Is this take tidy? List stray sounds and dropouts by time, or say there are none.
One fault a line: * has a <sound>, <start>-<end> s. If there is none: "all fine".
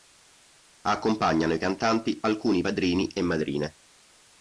all fine